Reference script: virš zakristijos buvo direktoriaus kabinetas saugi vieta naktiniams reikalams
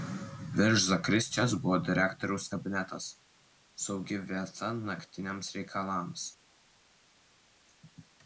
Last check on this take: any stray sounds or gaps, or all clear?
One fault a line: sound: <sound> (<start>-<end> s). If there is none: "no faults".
no faults